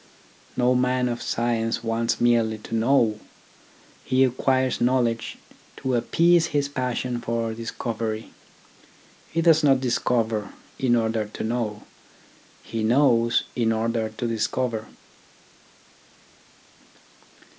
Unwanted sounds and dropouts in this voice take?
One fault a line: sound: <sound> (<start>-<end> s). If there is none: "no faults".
no faults